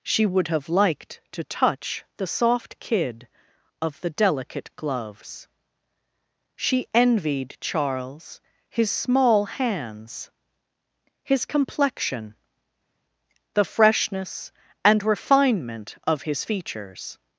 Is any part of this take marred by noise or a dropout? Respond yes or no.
no